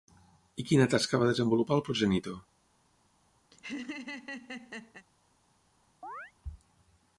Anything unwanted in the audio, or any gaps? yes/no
yes